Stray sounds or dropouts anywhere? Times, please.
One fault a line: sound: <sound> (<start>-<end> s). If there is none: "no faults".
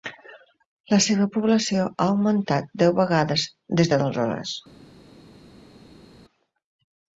no faults